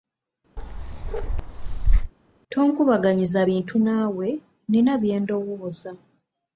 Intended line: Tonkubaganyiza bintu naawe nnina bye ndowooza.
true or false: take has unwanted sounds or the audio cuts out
true